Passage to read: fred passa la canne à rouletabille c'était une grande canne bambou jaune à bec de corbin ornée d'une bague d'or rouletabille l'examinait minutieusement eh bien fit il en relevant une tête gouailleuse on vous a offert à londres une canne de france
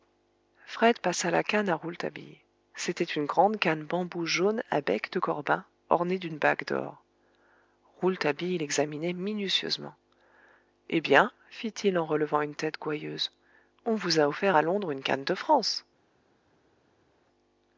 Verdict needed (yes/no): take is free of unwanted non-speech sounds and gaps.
yes